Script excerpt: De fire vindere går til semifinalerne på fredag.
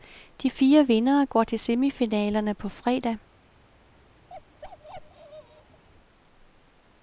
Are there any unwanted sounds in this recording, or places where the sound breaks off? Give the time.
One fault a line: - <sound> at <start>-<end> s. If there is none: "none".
- bark at 4.3-5.8 s